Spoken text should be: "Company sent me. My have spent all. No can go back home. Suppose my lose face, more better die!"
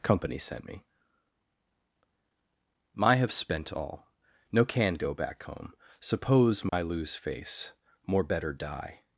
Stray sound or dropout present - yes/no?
yes